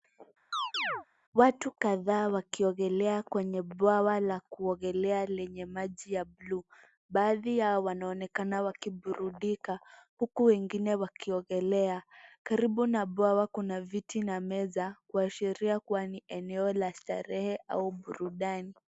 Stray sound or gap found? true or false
true